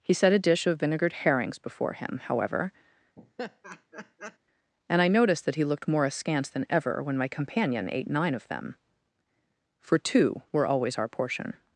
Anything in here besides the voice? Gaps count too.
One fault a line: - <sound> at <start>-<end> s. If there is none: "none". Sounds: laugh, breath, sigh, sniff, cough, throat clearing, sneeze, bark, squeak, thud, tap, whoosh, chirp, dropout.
- laugh at 3.2-4.4 s